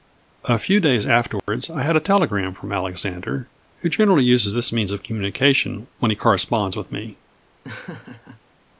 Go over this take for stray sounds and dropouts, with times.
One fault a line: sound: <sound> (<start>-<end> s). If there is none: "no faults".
sound: dropout (1.4-1.5 s)
sound: laugh (7.6-8.4 s)